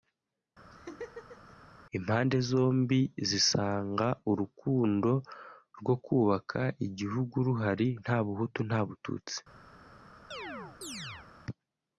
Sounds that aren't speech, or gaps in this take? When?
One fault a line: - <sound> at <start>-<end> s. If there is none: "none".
- laugh at 0.7-1.6 s
- chirp at 10.3-11.3 s